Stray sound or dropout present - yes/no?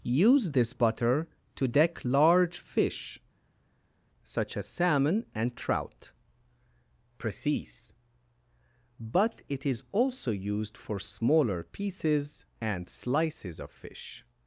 no